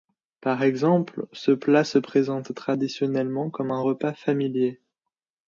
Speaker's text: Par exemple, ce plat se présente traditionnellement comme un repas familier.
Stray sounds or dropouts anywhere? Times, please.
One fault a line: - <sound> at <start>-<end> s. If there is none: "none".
none